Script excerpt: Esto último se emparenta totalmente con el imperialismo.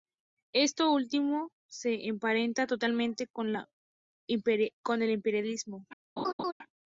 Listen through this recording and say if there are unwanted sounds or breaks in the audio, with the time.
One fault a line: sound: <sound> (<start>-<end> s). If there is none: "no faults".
sound: laugh (6.2-6.5 s)